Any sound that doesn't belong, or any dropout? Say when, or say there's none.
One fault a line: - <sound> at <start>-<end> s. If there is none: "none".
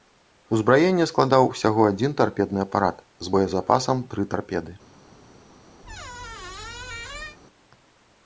- squeak at 5.8-7.4 s